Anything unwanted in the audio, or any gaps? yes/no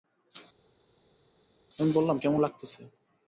no